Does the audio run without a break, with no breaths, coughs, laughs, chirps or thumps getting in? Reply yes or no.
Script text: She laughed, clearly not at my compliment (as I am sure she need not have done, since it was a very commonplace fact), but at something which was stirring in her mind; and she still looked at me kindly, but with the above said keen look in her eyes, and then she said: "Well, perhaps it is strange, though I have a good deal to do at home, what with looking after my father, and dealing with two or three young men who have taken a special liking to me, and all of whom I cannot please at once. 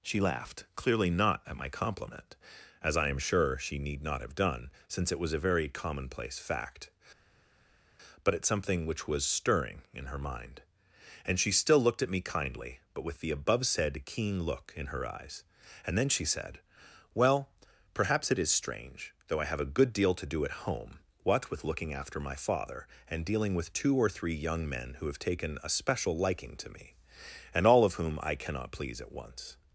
yes